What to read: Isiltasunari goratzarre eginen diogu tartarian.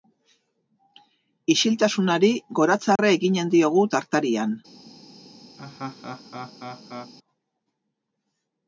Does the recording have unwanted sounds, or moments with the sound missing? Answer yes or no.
yes